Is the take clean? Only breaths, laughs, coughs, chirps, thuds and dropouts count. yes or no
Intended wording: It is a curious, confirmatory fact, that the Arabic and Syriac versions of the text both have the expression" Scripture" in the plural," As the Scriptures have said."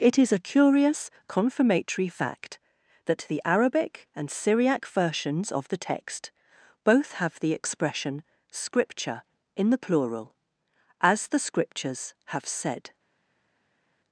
yes